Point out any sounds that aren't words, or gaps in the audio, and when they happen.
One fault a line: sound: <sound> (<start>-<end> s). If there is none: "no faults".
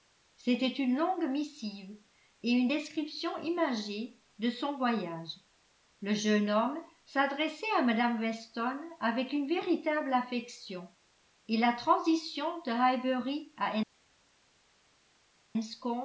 no faults